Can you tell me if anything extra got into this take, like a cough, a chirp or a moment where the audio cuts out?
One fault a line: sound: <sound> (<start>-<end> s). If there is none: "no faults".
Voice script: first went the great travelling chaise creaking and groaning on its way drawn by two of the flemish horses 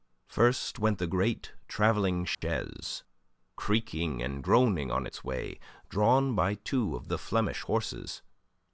sound: dropout (2.3-2.4 s)